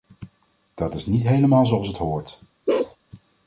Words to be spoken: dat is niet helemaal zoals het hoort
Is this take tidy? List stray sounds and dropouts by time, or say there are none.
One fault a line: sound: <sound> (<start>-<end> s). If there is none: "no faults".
sound: bark (2.7-3.0 s)